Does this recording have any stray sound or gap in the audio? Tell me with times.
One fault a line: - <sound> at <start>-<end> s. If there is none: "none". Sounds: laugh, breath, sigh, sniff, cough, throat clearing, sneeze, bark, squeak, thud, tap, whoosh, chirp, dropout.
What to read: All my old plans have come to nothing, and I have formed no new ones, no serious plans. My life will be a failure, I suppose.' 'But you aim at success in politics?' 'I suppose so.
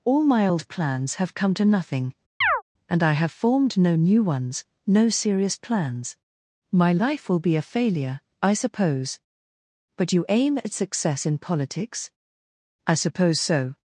- chirp at 2.4-2.6 s